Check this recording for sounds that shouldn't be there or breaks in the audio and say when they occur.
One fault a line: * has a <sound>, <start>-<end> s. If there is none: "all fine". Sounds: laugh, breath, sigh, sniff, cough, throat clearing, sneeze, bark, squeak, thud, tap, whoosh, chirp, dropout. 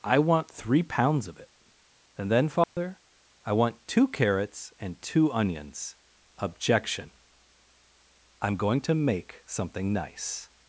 * has a dropout, 2.6-2.8 s